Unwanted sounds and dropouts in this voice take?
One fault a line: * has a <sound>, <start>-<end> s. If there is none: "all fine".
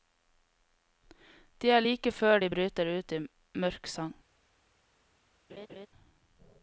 * has a laugh, 5.5-5.9 s